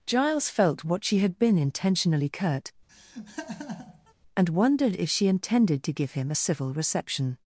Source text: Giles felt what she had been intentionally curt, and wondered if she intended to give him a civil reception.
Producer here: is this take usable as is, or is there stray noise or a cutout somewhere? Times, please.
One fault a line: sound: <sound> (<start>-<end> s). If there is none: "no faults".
sound: laugh (2.9-4.1 s)